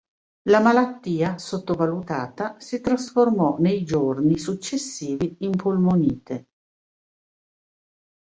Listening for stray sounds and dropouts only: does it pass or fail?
pass